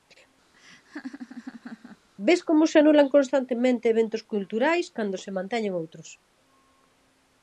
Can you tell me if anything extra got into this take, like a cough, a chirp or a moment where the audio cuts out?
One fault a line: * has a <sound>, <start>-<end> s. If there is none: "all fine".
* has a laugh, 0.5-2.1 s